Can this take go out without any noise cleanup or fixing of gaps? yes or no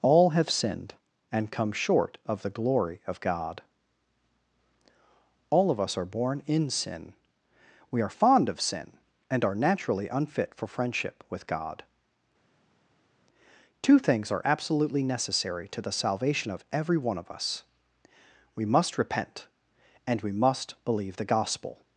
yes